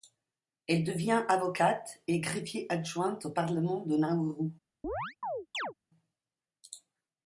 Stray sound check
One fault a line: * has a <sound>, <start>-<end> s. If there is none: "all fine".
* has a chirp, 4.8-5.7 s